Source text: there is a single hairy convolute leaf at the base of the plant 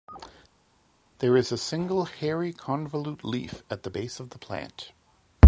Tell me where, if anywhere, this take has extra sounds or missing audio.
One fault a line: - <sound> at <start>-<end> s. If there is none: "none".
none